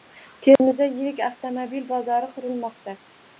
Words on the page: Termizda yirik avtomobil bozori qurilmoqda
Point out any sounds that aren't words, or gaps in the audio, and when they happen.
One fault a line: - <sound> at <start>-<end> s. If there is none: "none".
- dropout at 0.6-0.6 s